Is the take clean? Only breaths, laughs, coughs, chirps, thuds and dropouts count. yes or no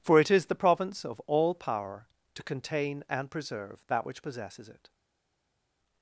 yes